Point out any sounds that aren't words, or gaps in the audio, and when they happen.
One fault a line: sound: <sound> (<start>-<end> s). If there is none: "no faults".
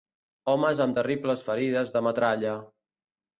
no faults